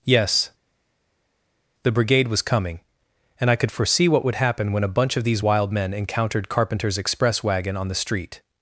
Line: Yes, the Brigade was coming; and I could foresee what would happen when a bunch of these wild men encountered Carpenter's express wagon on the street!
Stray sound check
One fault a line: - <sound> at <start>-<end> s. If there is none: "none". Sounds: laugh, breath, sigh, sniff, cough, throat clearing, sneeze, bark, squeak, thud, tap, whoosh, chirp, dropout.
none